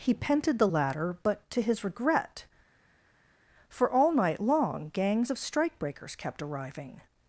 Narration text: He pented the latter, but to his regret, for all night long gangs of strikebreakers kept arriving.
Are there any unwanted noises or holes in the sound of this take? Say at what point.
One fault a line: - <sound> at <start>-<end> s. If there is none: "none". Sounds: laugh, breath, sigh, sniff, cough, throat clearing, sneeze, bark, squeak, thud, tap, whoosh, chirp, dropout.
none